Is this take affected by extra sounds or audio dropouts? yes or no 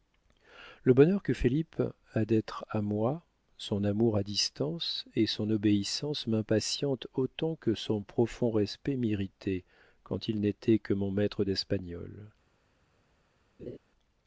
yes